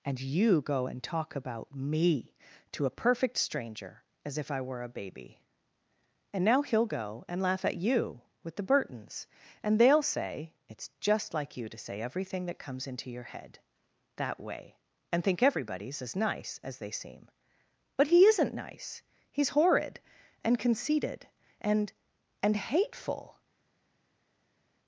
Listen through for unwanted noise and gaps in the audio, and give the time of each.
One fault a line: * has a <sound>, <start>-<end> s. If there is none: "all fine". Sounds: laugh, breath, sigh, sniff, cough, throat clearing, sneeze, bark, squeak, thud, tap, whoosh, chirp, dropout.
all fine